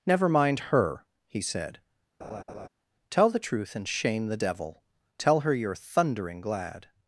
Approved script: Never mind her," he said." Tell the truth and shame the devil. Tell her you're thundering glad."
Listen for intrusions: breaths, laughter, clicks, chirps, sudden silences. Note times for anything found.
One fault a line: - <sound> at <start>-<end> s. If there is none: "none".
- laugh at 2.2-2.7 s